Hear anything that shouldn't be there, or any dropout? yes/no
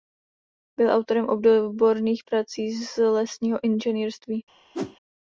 yes